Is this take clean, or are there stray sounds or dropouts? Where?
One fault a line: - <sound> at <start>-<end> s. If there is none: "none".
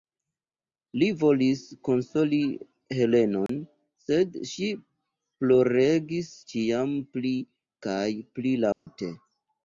- dropout at 3.5-3.5 s
- dropout at 8.7-8.9 s